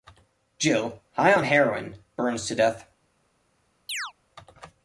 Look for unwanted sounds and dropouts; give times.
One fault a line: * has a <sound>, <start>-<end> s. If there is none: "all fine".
* has a chirp, 3.9-4.1 s